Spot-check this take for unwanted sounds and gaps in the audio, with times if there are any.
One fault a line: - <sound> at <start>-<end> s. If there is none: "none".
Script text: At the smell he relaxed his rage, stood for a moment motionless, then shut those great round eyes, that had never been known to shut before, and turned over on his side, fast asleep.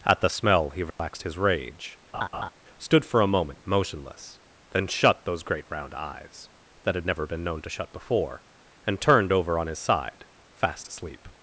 - dropout at 0.9-1.0 s
- laugh at 2.1-2.5 s